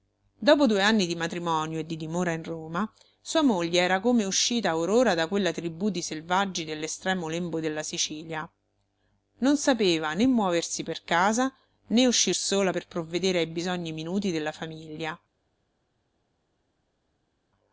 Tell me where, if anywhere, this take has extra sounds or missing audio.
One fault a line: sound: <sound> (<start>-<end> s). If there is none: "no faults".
no faults